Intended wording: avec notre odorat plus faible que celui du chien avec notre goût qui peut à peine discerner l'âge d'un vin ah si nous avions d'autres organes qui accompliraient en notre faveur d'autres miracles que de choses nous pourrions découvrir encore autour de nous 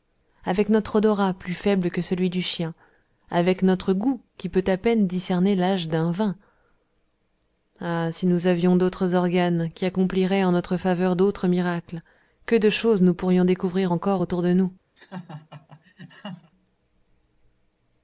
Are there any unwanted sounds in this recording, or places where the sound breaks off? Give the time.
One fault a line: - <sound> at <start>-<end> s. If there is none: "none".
- laugh at 15.0-16.5 s